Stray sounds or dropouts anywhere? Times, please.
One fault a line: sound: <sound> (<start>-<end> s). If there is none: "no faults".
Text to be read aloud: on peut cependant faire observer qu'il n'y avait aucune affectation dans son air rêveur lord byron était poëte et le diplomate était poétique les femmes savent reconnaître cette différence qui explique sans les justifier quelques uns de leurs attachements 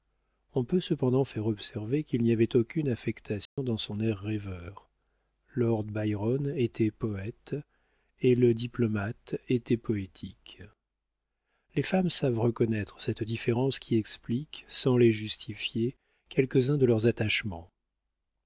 sound: dropout (3.5-3.6 s)